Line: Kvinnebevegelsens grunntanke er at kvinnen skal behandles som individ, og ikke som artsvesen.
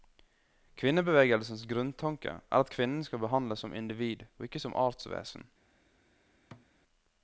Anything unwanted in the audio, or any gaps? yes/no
yes